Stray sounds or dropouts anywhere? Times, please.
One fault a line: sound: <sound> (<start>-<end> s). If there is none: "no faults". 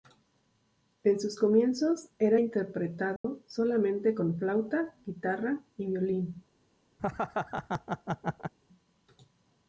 sound: dropout (3.2-3.2 s)
sound: laugh (7.0-8.5 s)